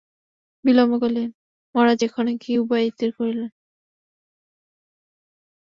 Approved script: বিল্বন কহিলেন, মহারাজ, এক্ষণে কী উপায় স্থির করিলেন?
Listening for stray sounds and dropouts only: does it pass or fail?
pass